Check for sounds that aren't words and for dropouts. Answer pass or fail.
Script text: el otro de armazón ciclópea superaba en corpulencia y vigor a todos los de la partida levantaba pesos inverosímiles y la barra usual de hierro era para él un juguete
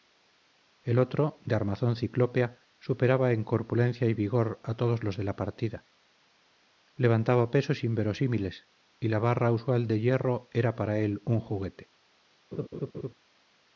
fail